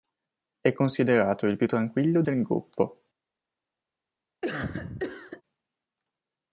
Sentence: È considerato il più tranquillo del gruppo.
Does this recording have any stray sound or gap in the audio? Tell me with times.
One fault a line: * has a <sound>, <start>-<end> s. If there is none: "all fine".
* has a cough, 4.4-5.4 s